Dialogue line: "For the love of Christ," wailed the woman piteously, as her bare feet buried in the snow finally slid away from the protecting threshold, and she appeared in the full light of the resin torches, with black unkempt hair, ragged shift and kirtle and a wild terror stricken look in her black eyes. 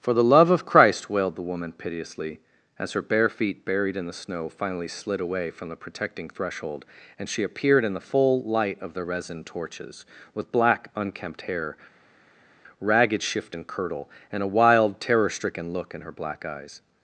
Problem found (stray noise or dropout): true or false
false